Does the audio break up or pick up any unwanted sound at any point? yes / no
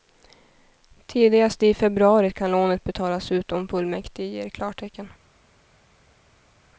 no